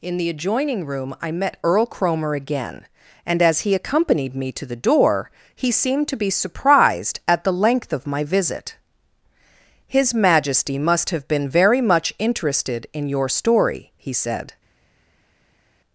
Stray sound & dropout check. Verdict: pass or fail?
pass